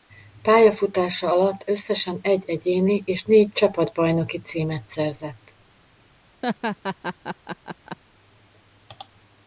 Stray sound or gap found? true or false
true